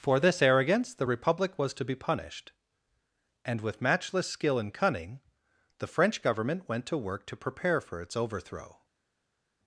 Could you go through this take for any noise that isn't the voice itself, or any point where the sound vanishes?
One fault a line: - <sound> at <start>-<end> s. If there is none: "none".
none